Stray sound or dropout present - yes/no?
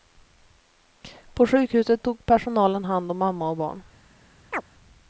yes